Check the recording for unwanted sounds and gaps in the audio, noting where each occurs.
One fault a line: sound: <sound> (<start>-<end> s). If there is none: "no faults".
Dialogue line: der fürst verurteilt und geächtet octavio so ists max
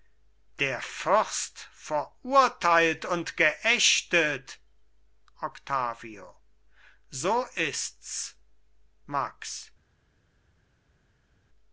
no faults